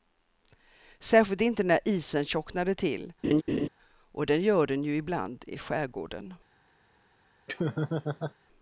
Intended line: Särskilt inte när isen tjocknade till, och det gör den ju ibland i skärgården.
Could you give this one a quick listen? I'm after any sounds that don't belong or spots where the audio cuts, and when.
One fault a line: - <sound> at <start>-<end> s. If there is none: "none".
- laugh at 3.2-3.7 s
- laugh at 7.5-8.3 s